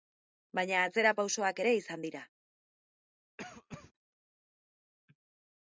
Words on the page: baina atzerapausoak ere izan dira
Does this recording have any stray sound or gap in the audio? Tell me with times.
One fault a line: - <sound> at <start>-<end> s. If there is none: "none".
- cough at 3.4-3.9 s